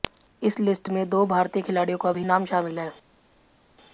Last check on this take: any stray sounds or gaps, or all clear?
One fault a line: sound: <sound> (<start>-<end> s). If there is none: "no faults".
no faults